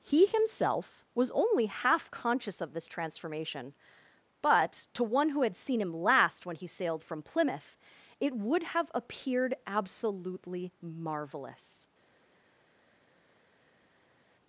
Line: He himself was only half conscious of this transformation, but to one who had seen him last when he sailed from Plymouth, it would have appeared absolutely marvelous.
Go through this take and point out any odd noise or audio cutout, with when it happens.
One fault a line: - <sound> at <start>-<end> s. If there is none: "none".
none